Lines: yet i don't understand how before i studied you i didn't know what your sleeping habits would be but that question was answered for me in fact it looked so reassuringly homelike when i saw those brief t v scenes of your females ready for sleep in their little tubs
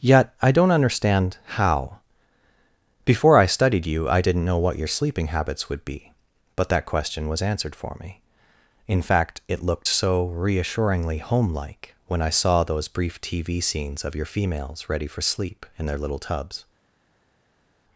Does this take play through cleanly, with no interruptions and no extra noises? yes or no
yes